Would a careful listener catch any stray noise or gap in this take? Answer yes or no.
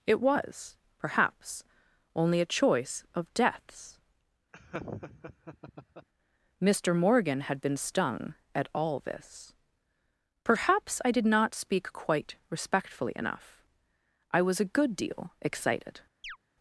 yes